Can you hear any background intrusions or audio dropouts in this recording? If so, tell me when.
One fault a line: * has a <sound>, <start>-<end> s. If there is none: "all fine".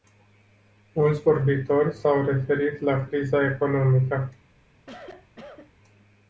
* has a cough, 4.8-5.7 s